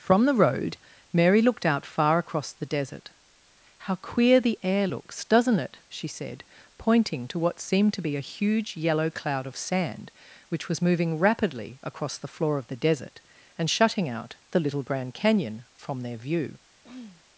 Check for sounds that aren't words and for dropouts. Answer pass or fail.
fail